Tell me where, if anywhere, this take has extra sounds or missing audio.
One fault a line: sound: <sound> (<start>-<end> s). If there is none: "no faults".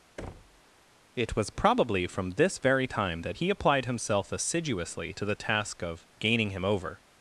sound: thud (0.2-0.6 s)